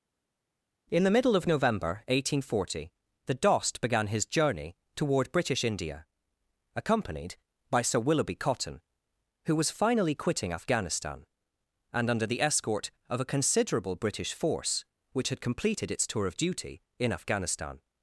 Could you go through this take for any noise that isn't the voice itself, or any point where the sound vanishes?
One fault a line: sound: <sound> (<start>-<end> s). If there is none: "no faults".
no faults